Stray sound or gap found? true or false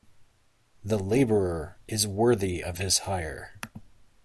false